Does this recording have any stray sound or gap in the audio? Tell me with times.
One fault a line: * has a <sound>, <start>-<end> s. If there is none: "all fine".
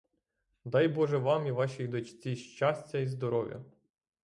all fine